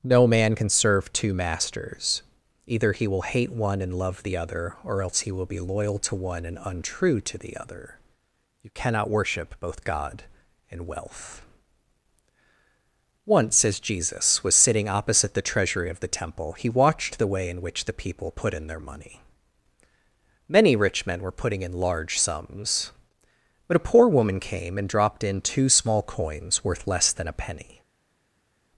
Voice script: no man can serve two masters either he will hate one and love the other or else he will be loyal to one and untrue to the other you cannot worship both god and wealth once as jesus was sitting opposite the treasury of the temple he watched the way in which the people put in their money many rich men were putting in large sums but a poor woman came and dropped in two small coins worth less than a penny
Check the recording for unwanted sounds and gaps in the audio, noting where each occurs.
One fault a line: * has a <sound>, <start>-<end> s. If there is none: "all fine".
all fine